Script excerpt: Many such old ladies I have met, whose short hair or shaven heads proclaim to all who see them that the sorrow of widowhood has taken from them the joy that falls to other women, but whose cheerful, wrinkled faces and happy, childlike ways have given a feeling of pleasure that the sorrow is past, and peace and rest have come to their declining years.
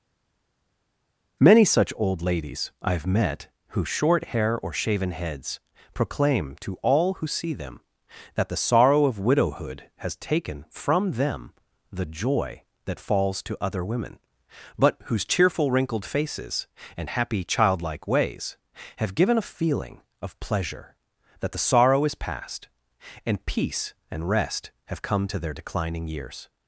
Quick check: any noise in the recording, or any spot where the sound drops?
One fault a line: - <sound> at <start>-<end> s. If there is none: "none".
none